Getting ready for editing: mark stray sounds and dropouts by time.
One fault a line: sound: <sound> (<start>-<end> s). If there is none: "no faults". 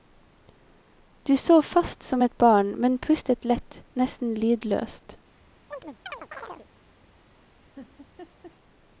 sound: chirp (5.7-6.7 s)
sound: laugh (7.8-8.6 s)